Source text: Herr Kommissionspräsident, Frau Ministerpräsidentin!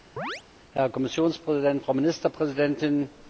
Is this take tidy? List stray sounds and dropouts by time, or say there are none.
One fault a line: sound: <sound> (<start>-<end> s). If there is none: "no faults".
sound: chirp (0.2-0.4 s)